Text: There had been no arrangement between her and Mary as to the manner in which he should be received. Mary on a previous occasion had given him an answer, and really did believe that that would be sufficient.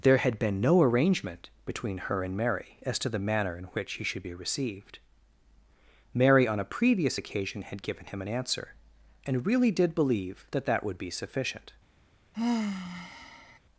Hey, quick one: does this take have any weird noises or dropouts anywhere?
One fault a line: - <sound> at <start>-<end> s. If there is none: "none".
- sigh at 12.3-13.6 s